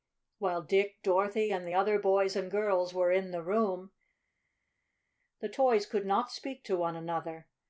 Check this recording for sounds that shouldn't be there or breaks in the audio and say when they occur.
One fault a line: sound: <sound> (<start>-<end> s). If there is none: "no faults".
no faults